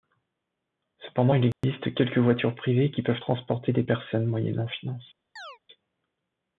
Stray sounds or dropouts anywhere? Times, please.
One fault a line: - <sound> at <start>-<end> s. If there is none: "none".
- dropout at 1.5-1.6 s
- chirp at 5.4-5.6 s